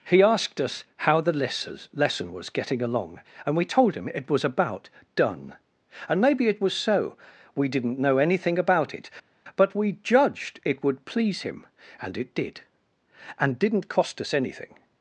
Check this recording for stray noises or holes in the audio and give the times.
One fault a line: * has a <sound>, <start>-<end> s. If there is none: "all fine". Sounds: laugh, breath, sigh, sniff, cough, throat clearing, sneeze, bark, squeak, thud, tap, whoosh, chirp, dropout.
all fine